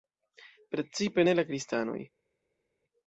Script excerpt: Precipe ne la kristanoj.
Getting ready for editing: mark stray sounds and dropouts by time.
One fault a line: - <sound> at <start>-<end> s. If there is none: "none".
none